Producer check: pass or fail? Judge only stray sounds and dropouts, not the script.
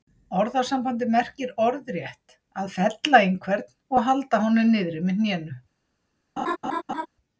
fail